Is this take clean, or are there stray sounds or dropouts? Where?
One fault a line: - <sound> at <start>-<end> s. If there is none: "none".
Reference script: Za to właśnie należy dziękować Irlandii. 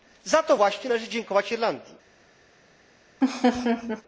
- laugh at 3.2-4.0 s